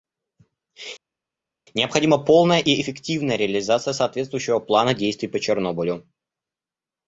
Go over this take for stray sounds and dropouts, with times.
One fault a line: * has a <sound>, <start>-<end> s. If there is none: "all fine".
all fine